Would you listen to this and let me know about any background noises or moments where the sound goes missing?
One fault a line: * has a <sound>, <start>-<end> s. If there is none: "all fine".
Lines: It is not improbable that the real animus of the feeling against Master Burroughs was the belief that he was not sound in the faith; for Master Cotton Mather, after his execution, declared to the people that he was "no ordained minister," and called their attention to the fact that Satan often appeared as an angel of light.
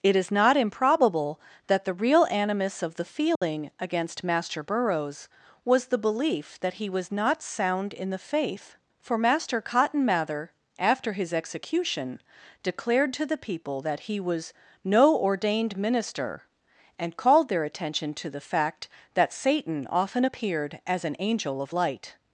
* has a dropout, 3.4-3.4 s